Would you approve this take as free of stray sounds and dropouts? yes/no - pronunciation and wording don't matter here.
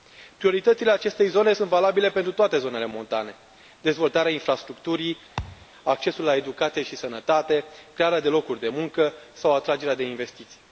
no